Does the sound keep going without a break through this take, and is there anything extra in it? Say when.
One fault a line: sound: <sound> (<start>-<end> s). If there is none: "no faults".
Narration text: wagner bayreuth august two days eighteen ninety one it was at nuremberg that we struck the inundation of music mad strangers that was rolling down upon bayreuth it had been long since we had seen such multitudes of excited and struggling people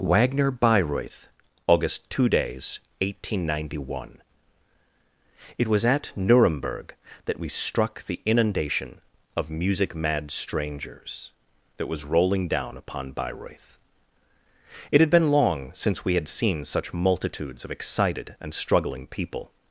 no faults